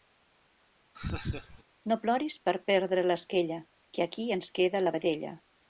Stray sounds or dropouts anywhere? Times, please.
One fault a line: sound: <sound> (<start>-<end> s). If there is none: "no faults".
sound: laugh (1.0-1.6 s)